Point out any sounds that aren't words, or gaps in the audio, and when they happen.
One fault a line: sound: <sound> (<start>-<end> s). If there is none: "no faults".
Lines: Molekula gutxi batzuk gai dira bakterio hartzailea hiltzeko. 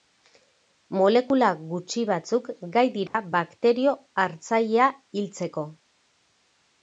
sound: dropout (3.1-3.1 s)